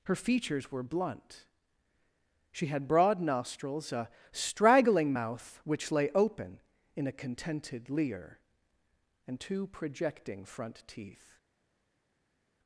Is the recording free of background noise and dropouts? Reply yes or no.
yes